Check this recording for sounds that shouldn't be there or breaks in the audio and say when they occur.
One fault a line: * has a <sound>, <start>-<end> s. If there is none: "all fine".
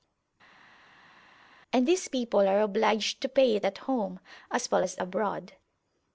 all fine